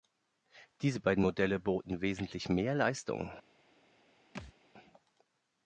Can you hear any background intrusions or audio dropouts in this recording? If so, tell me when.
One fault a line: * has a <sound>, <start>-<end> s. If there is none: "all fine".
* has a thud, 4.3-4.5 s